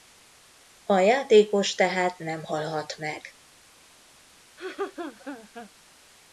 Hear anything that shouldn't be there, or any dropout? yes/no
yes